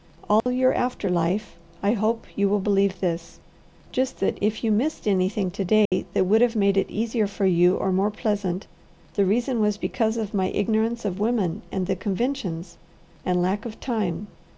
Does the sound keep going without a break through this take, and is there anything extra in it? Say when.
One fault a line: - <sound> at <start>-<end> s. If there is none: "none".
- dropout at 0.4-0.5 s
- dropout at 5.9-5.9 s